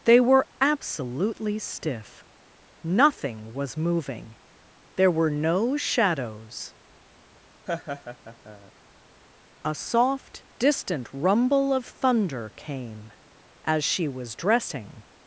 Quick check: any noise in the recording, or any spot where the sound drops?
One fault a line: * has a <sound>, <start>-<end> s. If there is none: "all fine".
* has a laugh, 7.7-8.7 s